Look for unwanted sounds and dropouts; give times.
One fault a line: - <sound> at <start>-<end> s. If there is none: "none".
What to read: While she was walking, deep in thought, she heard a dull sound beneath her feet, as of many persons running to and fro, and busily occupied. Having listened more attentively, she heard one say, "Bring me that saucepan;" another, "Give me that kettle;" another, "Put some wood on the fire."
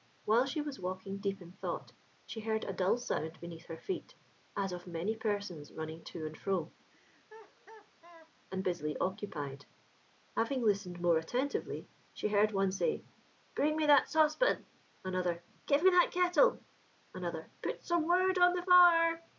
- laugh at 6.9-8.3 s